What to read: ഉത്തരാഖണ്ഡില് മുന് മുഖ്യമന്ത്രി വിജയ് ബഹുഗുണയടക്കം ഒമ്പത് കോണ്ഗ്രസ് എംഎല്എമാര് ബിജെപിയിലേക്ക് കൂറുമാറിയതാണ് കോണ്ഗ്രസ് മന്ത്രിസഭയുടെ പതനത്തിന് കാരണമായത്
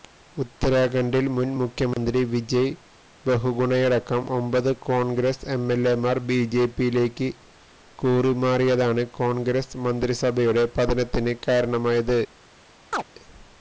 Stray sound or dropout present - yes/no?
yes